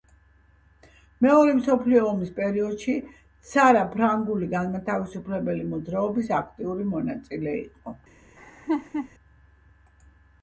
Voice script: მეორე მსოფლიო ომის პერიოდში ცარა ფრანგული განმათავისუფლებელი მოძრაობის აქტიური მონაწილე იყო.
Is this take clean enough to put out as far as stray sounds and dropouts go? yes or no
no